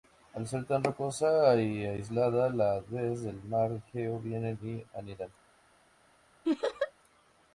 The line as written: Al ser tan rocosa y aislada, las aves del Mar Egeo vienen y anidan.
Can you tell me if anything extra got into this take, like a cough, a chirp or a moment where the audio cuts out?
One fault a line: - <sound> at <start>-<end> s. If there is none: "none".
- laugh at 6.4-6.9 s